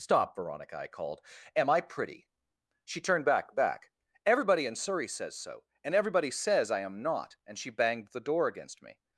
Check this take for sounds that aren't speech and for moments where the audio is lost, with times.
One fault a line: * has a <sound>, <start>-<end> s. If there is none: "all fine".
all fine